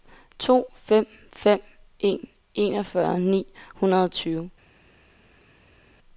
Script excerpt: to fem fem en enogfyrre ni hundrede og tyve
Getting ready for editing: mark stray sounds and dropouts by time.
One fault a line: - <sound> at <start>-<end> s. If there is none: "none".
none